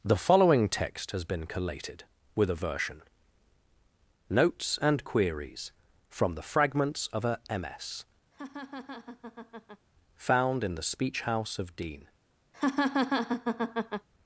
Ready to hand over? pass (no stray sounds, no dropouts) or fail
fail